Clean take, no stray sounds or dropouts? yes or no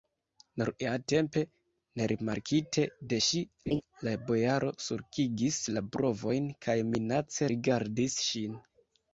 no